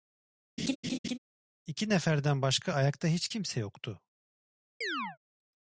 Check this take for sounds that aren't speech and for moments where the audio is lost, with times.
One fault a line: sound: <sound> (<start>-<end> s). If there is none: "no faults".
sound: laugh (0.6-1.2 s)
sound: chirp (4.8-5.2 s)